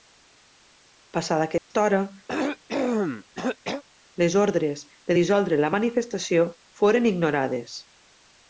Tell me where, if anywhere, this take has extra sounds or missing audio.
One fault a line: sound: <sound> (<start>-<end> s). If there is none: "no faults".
sound: dropout (1.6-1.7 s)
sound: cough (2.3-3.8 s)